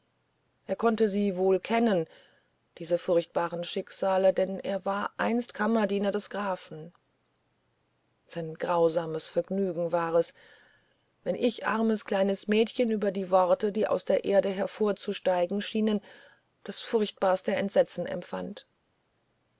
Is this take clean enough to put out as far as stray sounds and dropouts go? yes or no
yes